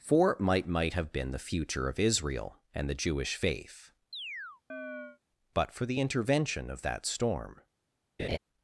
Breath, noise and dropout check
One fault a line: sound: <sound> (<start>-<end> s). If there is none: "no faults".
sound: chirp (4.1-5.2 s)
sound: laugh (8.2-8.4 s)